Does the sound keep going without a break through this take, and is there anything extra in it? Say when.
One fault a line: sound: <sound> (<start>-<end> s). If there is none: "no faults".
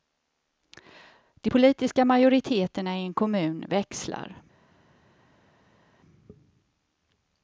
no faults